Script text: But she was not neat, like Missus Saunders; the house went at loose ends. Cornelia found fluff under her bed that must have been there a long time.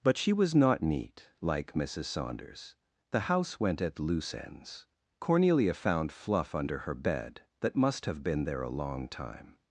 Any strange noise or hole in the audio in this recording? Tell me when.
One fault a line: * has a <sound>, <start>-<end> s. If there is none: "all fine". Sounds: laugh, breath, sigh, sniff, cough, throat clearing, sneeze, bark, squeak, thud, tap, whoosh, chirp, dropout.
all fine